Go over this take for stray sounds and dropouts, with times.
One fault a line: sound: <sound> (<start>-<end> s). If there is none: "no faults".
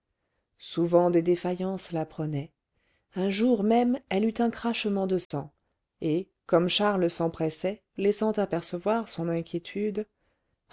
sound: dropout (5.2-5.3 s)